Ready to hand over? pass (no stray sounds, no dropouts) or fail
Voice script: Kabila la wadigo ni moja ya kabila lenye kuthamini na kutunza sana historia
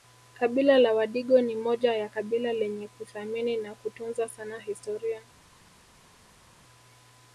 pass